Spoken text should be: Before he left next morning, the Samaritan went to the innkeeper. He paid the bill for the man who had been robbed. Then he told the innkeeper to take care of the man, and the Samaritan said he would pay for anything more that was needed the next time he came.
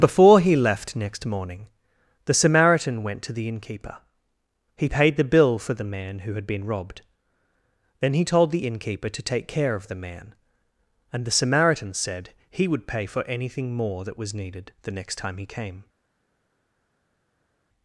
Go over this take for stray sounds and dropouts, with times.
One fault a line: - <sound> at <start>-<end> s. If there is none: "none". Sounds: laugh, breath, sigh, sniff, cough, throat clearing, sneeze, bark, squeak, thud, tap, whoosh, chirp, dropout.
none